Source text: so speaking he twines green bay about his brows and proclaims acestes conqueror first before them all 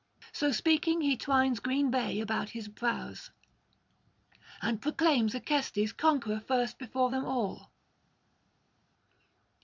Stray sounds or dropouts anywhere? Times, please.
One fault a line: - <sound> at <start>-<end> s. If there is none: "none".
none